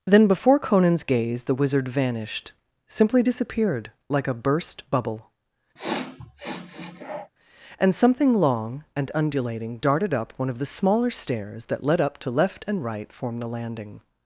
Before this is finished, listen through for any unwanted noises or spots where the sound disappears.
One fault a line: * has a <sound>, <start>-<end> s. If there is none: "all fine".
* has a sniff, 5.8-7.3 s